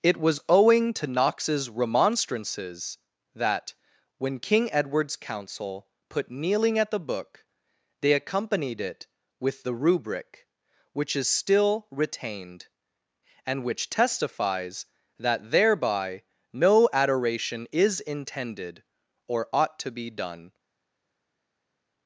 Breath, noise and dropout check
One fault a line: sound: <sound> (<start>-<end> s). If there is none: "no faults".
no faults